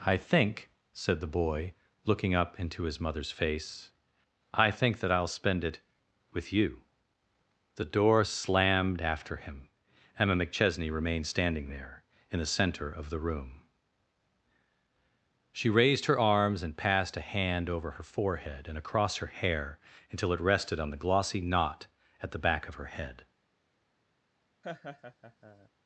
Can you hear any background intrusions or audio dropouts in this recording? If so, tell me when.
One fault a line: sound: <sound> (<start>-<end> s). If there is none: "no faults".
sound: laugh (24.6-25.7 s)